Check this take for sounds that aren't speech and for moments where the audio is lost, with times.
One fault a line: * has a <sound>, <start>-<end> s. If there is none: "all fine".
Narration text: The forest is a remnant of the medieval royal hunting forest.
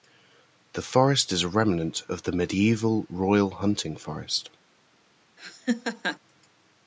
* has a laugh, 5.4-6.2 s